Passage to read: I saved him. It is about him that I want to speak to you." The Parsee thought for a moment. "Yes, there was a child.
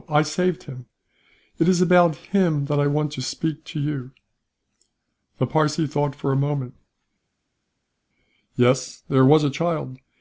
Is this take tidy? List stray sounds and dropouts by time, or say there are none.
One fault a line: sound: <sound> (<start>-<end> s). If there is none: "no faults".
no faults